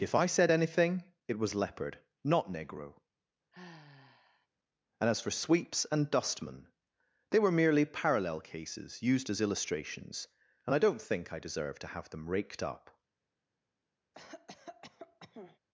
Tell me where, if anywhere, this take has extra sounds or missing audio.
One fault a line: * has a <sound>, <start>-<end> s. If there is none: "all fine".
* has a sigh, 3.5-4.5 s
* has a cough, 14.1-15.6 s